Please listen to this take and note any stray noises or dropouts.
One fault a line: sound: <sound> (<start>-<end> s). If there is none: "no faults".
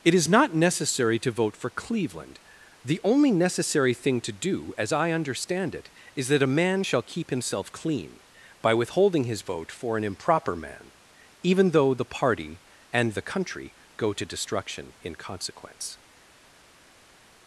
no faults